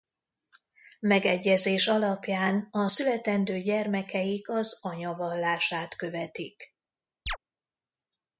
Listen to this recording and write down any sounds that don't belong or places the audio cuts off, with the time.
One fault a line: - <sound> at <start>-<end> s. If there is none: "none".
- chirp at 7.3-7.4 s